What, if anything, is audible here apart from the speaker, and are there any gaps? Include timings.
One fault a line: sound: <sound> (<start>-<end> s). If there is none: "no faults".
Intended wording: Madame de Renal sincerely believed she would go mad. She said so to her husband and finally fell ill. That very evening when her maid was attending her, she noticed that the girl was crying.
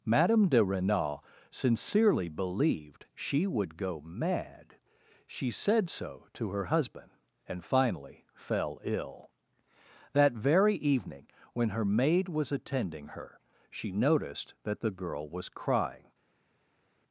no faults